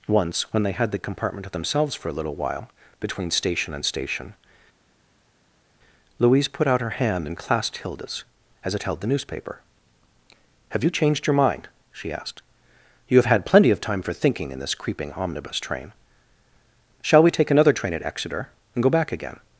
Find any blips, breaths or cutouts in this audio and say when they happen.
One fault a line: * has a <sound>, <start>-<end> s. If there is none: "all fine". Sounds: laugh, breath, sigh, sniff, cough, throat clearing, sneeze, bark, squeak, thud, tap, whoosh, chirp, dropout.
all fine